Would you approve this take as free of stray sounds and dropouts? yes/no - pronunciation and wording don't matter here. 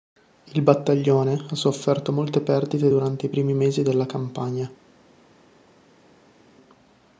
yes